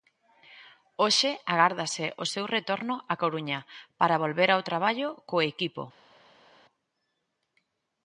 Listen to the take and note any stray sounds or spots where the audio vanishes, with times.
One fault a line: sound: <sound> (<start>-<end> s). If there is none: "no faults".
no faults